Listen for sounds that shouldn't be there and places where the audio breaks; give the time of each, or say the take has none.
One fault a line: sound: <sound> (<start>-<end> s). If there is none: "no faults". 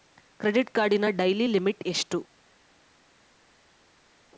no faults